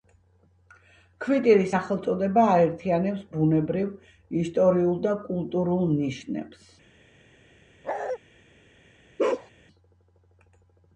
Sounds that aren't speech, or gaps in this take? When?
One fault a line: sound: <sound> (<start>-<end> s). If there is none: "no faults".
sound: bark (7.8-8.2 s)
sound: bark (9.2-9.5 s)